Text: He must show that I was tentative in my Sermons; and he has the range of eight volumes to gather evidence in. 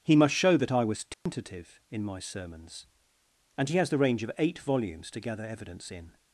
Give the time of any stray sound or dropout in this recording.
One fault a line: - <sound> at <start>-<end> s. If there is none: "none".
- dropout at 1.1-1.3 s